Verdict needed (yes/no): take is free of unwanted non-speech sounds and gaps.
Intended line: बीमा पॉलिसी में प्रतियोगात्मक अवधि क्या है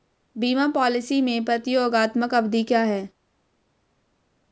yes